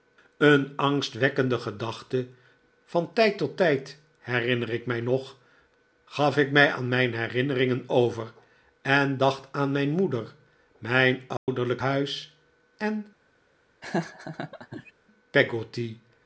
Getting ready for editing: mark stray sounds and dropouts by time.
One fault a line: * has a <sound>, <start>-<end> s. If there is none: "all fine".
* has a dropout, 11.4-11.5 s
* has a laugh, 13.8-14.9 s